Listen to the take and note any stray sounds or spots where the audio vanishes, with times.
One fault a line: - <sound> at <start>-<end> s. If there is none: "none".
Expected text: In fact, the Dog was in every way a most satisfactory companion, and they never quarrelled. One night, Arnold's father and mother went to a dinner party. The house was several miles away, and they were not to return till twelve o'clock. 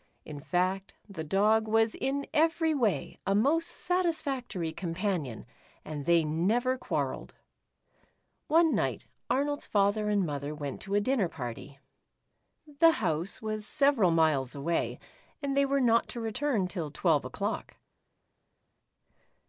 none